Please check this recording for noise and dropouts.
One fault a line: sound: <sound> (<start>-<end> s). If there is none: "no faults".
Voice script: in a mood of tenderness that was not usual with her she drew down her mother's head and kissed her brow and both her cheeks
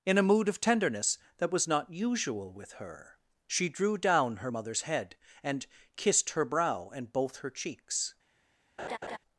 sound: laugh (8.8-9.2 s)